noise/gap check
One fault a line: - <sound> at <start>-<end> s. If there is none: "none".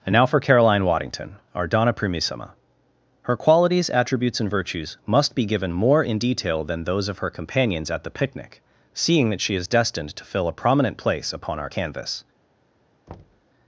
- thud at 13.1-13.4 s